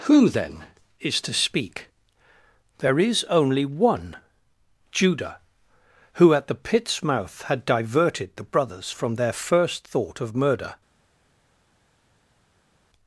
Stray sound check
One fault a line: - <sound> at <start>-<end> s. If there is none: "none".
none